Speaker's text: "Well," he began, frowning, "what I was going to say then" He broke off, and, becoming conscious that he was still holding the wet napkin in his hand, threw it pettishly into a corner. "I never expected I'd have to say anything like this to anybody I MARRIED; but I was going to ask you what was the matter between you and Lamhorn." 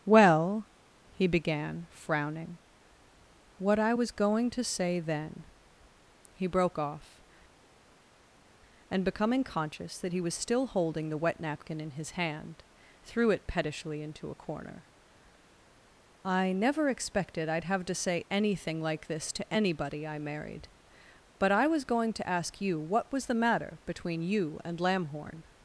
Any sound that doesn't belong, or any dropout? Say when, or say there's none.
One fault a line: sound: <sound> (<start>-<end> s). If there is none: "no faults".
no faults